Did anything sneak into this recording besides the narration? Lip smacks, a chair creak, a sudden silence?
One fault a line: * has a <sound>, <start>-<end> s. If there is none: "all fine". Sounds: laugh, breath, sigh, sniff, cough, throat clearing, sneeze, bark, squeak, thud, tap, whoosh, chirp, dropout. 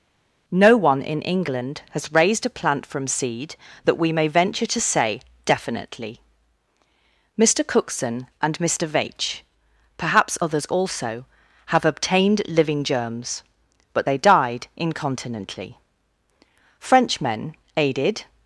all fine